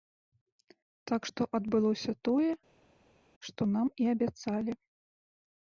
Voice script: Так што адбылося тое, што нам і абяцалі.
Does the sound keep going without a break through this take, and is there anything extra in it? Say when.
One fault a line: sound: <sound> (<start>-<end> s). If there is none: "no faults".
no faults